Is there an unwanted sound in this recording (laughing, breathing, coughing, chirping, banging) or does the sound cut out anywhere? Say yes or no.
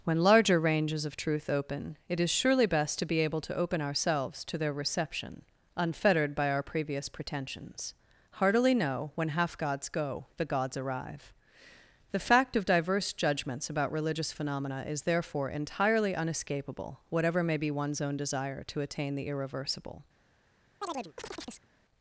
yes